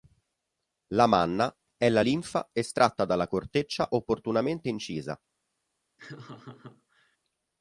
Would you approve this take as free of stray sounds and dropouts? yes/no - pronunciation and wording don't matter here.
no